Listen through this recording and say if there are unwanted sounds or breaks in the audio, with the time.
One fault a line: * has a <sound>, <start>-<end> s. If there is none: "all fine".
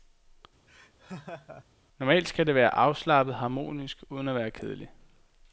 * has a laugh, 0.7-1.6 s